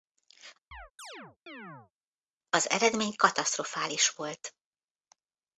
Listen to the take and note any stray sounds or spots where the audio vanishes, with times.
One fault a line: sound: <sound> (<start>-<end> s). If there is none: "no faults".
sound: chirp (0.7-1.9 s)